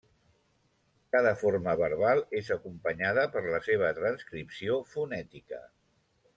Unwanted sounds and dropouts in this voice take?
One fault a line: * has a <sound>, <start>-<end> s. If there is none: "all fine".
all fine